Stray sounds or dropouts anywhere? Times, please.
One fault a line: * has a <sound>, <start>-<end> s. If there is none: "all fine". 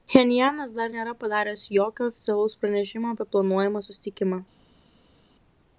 all fine